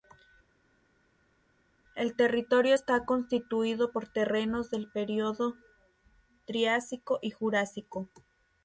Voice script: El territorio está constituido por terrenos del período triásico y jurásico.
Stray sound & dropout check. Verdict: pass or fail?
pass